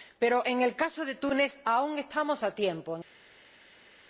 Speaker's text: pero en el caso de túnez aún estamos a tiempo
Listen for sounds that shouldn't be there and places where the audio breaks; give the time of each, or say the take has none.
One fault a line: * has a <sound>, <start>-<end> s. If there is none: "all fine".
all fine